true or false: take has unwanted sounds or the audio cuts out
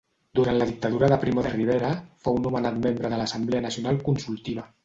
false